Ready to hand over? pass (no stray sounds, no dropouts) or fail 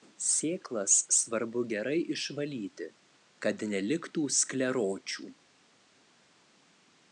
pass